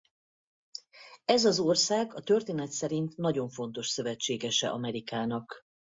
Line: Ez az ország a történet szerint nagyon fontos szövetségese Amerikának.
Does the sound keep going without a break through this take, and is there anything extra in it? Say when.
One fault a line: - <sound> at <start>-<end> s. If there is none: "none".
none